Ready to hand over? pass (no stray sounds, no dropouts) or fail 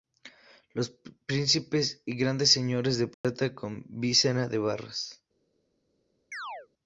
fail